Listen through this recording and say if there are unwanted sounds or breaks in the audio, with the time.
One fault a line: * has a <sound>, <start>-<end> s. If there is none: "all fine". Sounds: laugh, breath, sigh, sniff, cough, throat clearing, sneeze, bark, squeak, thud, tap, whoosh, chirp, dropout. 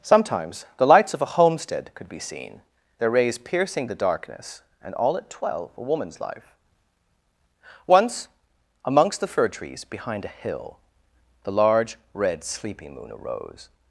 all fine